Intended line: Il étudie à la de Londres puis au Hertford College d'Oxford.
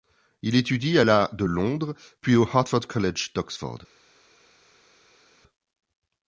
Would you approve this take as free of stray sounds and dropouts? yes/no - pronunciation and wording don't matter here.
yes